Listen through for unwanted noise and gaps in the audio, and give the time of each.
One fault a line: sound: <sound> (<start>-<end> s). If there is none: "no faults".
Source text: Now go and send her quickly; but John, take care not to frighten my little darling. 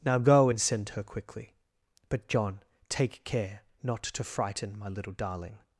no faults